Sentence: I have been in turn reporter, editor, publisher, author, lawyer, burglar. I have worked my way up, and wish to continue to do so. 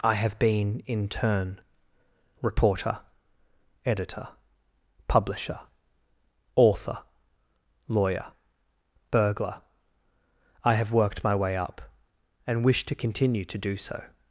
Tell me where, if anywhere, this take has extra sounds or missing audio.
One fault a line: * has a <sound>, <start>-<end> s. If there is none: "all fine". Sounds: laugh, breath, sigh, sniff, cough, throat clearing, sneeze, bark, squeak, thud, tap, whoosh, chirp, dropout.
all fine